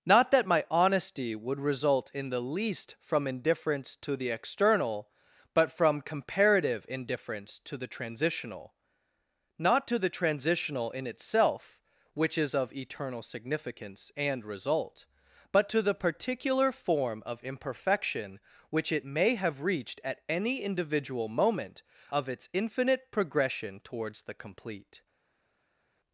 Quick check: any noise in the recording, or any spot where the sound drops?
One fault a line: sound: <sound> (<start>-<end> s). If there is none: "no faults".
no faults